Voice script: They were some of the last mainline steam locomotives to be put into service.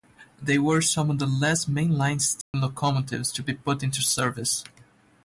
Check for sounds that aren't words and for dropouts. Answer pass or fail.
fail